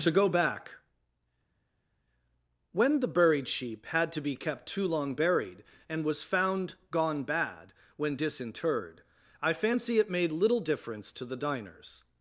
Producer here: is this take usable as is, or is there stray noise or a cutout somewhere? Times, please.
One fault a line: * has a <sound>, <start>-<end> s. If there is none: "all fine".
all fine